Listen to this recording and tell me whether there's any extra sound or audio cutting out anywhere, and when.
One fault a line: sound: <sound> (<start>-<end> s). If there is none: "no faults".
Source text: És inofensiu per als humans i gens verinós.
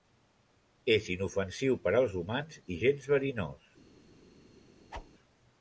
sound: whoosh (4.9-5.1 s)